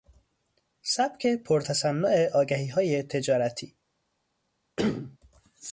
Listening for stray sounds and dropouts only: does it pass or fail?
fail